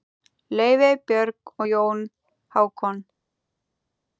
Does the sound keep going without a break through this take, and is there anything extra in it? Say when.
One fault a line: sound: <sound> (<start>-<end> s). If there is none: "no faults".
no faults